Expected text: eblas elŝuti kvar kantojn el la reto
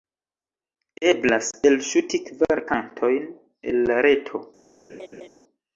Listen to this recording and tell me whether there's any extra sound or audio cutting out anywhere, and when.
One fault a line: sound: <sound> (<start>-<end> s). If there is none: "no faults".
sound: laugh (4.9-5.3 s)